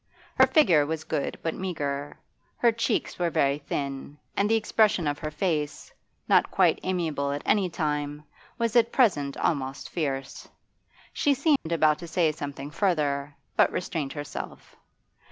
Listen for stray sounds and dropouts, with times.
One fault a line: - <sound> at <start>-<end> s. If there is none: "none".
- dropout at 11.6-11.7 s